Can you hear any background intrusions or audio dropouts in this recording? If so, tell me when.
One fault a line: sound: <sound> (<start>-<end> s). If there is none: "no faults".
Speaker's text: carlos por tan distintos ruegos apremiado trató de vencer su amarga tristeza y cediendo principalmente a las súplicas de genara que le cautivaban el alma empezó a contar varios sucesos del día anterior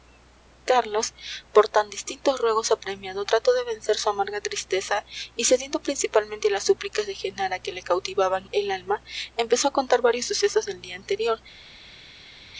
no faults